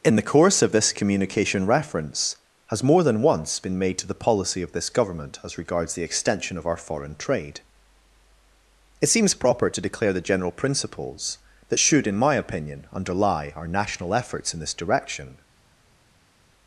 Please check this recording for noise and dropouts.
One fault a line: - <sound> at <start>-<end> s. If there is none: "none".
none